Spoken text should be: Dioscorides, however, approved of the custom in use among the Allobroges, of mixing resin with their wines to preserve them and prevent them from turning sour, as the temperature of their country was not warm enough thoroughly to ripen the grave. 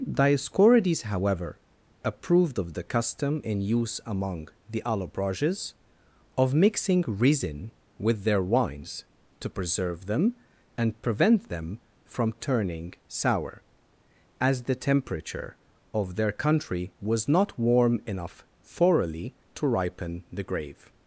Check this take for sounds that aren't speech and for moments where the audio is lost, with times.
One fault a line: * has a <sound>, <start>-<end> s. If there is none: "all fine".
all fine